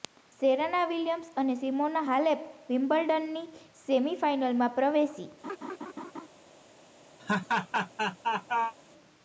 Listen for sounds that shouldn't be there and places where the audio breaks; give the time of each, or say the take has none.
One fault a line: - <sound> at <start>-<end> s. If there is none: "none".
- laugh at 5.4-6.3 s
- laugh at 7.2-8.7 s